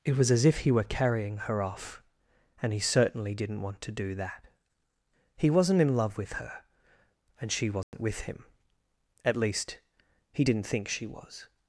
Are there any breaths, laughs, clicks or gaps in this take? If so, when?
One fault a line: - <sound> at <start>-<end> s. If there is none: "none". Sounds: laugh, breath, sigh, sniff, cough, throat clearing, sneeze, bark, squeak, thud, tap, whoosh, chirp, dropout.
- dropout at 7.8-7.9 s